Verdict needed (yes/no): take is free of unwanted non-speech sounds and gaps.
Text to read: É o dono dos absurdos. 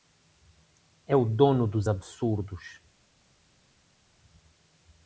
yes